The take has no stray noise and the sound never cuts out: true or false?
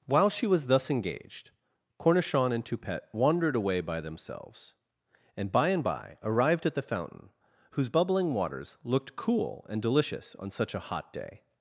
true